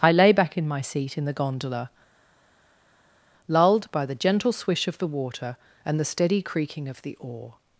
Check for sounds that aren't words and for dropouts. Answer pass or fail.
pass